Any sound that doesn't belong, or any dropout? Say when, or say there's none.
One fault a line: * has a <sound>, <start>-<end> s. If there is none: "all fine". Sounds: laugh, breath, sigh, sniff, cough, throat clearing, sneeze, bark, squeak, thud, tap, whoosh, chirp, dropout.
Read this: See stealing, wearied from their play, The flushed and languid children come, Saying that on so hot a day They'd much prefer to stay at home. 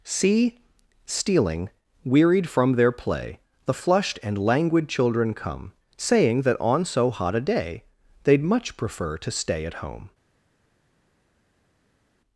all fine